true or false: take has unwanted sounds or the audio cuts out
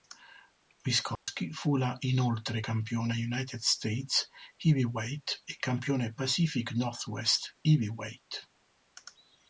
true